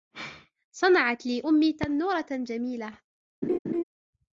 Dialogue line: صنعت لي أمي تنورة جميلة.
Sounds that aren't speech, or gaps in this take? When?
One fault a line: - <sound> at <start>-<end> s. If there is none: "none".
- laugh at 3.4-3.8 s